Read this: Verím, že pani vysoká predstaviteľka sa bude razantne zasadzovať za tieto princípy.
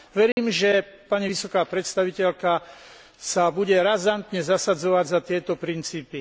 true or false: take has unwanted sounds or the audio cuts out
true